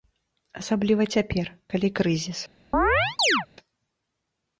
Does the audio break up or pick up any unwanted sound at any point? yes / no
yes